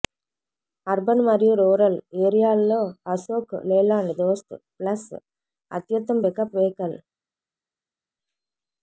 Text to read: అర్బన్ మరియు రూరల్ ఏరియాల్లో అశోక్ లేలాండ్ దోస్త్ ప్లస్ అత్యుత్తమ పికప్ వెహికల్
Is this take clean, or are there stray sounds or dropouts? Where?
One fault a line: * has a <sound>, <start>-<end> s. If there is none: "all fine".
all fine